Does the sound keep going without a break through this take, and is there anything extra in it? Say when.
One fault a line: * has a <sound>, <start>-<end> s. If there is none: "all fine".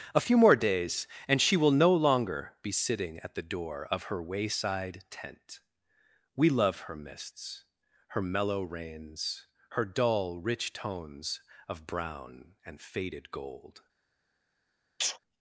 * has a sneeze, 15.0-15.2 s